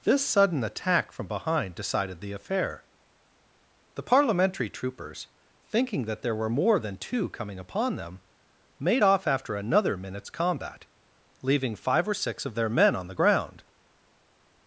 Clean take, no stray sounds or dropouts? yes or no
yes